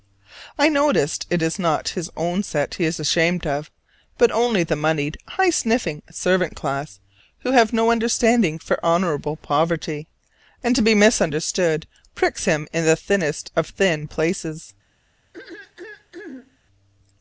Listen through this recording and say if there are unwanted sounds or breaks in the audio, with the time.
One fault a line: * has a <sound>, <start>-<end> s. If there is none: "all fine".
* has a throat clearing, 15.3-16.6 s